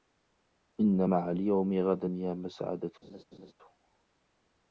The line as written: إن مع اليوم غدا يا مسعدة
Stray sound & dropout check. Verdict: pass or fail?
fail